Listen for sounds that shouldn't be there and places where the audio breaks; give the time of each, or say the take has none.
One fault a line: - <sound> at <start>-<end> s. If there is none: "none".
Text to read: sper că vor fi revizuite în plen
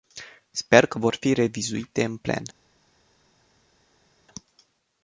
none